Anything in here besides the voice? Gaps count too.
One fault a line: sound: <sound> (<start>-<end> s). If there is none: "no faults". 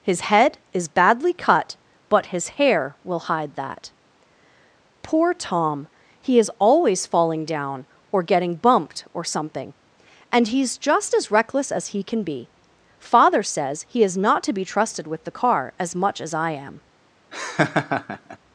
sound: laugh (17.3-18.4 s)